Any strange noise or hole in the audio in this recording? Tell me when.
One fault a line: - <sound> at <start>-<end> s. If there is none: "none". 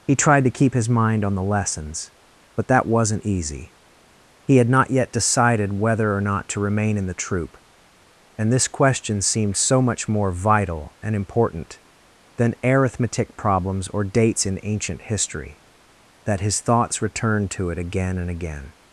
none